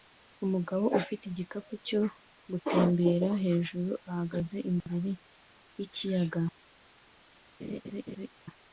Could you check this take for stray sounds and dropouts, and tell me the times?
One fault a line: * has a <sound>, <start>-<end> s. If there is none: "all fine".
* has a laugh, 7.6-8.3 s